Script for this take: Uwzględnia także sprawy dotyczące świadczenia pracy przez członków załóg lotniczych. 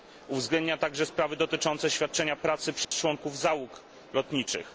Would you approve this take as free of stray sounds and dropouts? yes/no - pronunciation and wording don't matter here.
no